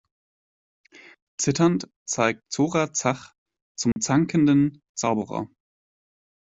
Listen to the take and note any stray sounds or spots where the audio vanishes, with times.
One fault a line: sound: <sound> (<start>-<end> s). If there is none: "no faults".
sound: dropout (3.9-4.0 s)